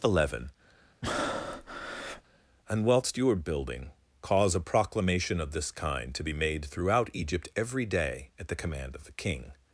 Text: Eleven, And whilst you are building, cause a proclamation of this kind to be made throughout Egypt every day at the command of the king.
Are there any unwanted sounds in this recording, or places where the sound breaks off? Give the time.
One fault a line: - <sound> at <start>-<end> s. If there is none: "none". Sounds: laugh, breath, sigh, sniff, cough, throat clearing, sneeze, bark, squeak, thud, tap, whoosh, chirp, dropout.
- breath at 1.0-2.2 s